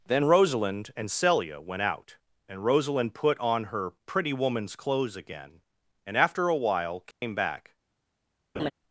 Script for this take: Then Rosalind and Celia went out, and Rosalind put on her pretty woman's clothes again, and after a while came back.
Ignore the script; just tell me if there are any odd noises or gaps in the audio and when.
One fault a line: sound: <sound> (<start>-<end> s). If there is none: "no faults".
sound: dropout (7.1-7.2 s)
sound: laugh (8.5-8.7 s)